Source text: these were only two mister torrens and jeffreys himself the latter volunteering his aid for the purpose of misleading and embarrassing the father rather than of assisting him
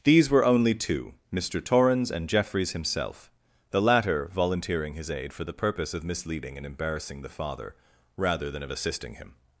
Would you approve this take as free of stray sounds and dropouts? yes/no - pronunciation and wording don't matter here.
yes